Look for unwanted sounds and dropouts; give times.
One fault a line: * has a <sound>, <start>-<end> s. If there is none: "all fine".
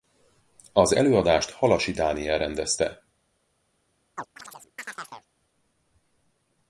* has a chirp, 4.1-5.3 s